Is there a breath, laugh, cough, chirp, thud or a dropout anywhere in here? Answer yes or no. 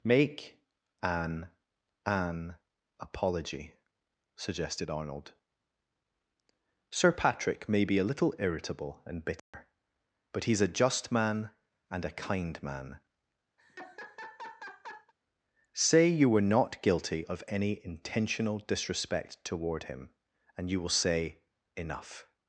yes